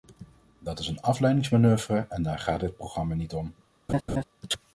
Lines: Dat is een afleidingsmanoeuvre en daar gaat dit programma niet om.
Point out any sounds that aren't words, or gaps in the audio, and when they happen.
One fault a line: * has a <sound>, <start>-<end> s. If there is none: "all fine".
* has a laugh, 3.9-4.2 s